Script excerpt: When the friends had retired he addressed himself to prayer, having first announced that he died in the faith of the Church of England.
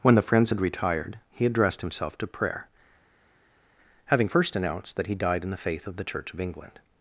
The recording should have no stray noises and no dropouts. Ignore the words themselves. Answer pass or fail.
pass